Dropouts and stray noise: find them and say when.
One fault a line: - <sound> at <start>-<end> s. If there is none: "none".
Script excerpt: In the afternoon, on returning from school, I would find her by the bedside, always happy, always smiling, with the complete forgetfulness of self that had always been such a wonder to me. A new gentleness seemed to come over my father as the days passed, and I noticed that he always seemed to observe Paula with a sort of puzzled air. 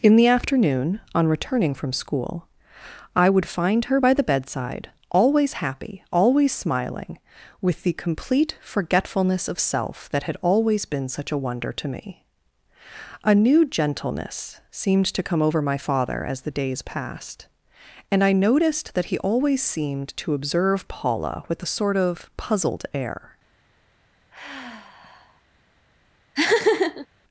- sigh at 24.3-25.4 s
- laugh at 26.3-27.1 s